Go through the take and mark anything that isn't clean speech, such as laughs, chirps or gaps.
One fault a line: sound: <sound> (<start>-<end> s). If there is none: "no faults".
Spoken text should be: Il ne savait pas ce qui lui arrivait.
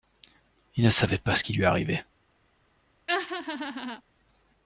sound: laugh (3.1-4.0 s)